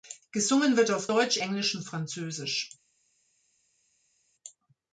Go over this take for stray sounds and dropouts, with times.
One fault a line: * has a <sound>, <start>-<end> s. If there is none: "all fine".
all fine